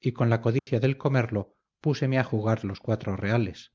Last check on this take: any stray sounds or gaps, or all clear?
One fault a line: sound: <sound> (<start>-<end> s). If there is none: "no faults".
sound: dropout (0.6-0.7 s)